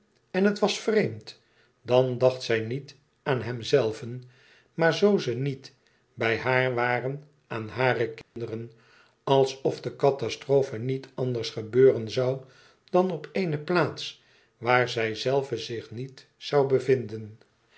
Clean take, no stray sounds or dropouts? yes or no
no